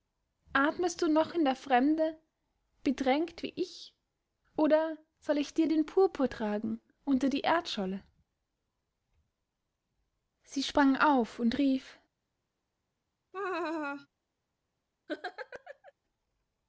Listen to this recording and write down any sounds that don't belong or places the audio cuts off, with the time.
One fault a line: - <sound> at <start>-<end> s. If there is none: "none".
- laugh at 13.3-14.1 s
- laugh at 15.1-15.9 s